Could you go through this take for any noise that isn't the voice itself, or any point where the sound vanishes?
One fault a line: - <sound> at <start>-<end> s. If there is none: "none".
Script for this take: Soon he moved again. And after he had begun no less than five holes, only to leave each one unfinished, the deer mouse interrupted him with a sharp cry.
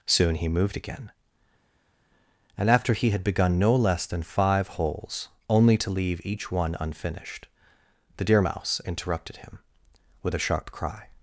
none